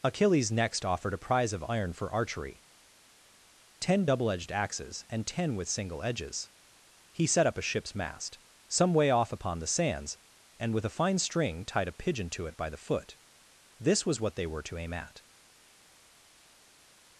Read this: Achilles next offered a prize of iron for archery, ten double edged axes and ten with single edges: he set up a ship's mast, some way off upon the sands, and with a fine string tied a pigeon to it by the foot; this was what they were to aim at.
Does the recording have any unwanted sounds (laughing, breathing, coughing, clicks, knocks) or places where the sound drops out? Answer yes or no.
no